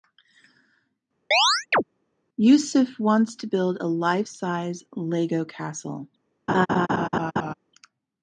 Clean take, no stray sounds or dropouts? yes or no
no